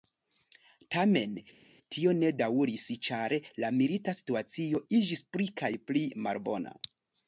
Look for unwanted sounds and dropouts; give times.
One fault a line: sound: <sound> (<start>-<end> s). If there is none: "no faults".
no faults